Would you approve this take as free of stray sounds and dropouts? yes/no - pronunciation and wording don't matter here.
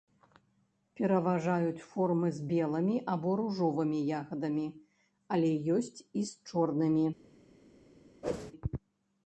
no